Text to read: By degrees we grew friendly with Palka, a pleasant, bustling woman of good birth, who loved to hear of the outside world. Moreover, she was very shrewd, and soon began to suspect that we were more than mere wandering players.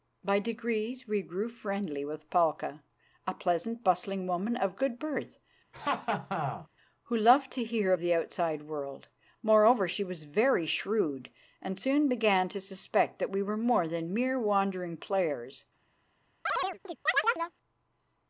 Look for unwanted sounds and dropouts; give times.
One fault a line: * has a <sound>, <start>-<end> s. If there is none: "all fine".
* has a laugh, 5.7-6.7 s
* has a chirp, 16.5-17.5 s